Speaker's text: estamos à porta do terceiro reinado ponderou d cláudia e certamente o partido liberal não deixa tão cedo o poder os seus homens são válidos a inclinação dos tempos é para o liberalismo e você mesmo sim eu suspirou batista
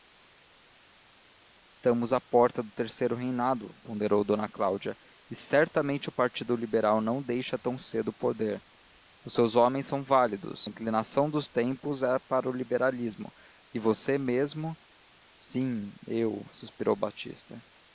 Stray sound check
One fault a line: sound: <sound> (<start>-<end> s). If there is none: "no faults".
no faults